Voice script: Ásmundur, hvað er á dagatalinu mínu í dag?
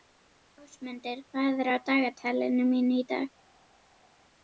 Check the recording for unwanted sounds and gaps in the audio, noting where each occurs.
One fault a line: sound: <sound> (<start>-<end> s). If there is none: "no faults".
no faults